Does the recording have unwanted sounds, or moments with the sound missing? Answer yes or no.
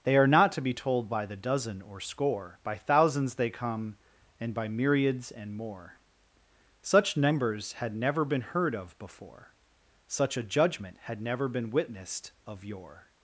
no